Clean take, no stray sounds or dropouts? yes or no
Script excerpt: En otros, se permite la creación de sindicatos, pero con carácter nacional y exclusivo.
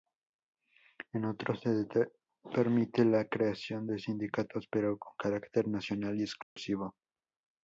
no